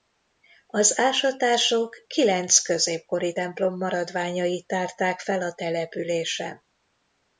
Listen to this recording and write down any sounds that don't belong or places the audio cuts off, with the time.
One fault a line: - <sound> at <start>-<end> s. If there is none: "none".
none